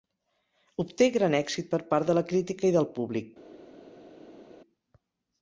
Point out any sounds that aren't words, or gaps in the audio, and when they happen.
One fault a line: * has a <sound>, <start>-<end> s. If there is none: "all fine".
all fine